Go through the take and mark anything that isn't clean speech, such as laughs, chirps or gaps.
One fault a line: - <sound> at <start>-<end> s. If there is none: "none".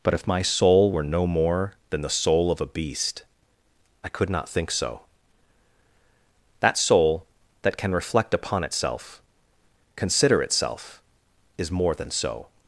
none